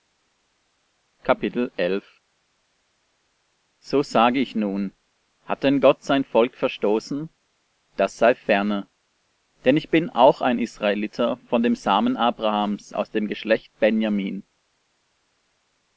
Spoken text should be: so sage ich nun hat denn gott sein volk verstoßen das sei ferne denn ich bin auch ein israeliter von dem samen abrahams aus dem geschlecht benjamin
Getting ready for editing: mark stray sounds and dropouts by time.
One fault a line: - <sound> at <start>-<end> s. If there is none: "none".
none